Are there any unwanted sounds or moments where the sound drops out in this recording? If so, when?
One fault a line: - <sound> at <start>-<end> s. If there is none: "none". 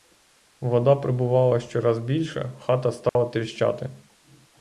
- dropout at 3.1-3.2 s